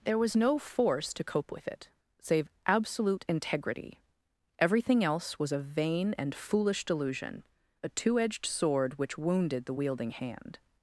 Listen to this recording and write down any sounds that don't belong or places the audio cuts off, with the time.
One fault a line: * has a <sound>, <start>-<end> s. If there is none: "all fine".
all fine